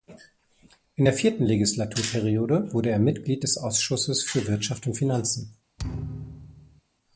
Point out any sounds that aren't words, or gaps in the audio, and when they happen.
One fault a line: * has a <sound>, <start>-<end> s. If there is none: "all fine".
* has a thud, 5.8-6.8 s